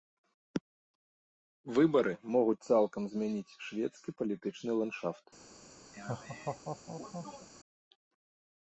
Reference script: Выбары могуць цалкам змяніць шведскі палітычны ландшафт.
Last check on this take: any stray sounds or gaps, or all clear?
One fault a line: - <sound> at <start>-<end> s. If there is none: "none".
- laugh at 5.9-7.5 s